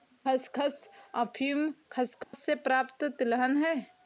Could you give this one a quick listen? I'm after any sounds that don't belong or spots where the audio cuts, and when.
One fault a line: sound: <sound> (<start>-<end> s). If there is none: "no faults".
sound: dropout (2.2-2.3 s)